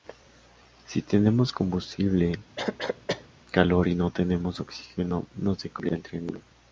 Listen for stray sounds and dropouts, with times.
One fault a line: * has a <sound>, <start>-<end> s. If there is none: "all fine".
* has a cough, 2.6-3.3 s